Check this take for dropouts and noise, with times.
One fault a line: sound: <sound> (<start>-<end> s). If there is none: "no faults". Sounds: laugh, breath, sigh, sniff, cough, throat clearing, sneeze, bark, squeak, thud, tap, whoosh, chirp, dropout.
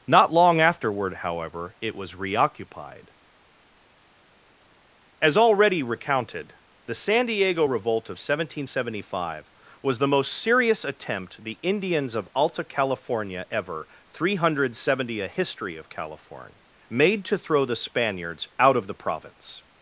no faults